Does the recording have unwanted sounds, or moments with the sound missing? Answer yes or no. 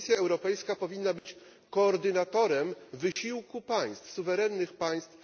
yes